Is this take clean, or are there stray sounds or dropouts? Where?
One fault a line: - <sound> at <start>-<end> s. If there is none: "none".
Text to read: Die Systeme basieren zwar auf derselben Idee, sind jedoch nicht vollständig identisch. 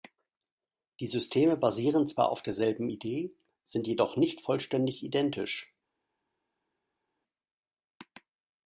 none